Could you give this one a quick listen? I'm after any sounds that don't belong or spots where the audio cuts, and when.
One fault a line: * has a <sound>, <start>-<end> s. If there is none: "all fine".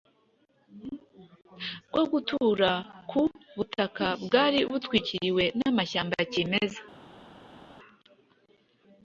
all fine